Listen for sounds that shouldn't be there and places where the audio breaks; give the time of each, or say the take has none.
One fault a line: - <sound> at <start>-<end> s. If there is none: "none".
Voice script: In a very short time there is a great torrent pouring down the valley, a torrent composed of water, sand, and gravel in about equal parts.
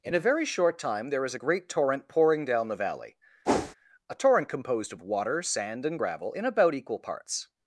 - whoosh at 3.4-3.7 s